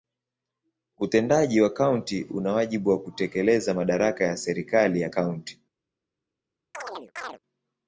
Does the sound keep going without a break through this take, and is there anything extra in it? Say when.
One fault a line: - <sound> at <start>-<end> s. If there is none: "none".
- chirp at 6.7-7.4 s